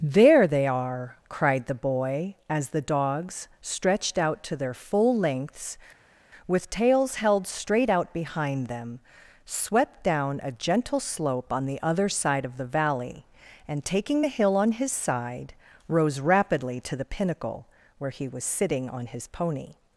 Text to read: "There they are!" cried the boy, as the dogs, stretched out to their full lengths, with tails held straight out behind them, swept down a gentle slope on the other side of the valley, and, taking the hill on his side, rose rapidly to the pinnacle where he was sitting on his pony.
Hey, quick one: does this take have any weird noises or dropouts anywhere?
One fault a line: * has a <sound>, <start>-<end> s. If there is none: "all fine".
all fine